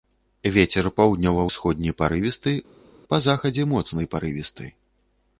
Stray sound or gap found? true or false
false